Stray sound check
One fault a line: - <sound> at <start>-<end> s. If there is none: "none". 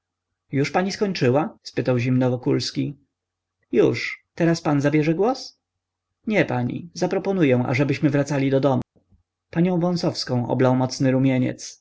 - dropout at 8.8-9.0 s